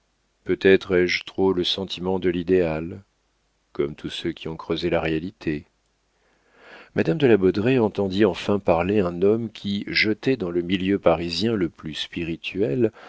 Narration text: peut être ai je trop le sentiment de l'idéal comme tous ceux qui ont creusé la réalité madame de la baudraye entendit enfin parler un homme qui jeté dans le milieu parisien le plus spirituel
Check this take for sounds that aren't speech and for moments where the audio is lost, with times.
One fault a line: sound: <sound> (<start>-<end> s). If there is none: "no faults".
no faults